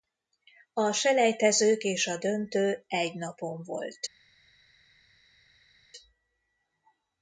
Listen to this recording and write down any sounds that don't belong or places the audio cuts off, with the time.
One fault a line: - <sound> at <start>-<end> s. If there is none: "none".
none